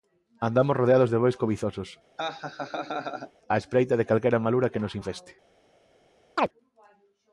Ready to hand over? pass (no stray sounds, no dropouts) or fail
fail